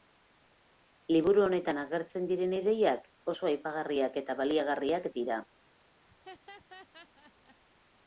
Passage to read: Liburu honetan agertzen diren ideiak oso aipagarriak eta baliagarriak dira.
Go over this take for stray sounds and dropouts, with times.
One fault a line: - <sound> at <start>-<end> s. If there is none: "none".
- laugh at 6.0-7.6 s